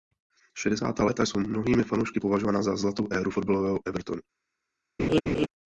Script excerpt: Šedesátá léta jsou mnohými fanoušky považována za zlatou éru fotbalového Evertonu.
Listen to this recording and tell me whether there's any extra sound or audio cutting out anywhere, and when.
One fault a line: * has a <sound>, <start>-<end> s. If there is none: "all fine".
* has a laugh, 5.0-5.5 s